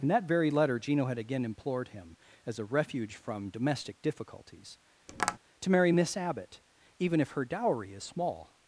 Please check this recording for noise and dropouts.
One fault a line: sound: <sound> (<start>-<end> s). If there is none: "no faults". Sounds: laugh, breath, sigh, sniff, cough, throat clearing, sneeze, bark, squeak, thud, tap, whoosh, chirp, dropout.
sound: tap (5.1-5.4 s)